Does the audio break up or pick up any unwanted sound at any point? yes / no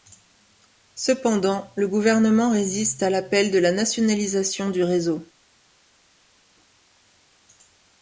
no